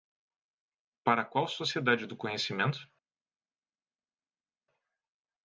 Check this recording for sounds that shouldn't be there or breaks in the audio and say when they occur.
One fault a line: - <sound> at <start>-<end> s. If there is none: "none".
none